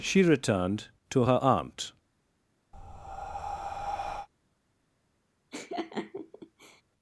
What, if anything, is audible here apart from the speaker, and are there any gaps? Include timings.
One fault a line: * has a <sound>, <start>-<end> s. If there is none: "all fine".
* has a breath, 2.7-4.3 s
* has a laugh, 5.5-6.8 s